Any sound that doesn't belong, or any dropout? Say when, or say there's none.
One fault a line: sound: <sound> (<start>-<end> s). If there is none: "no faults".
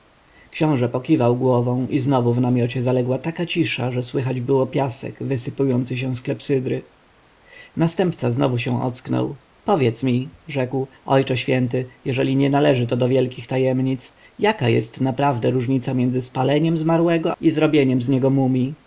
no faults